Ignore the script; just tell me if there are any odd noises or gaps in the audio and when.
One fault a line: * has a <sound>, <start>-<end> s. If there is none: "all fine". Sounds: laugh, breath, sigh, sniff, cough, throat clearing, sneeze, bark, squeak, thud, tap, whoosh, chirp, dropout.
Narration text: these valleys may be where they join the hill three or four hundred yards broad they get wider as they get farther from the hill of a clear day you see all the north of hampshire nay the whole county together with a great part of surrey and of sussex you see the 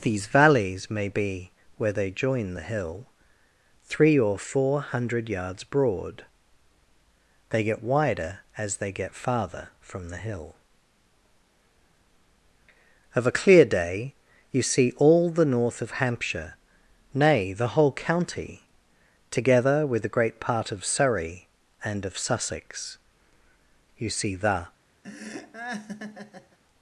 * has a laugh, 25.0-26.6 s